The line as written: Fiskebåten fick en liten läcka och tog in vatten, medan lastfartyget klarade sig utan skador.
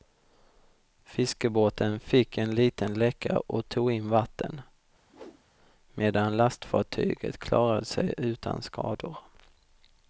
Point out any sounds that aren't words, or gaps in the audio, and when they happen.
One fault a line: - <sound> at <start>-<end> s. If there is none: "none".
- whoosh at 5.1-5.4 s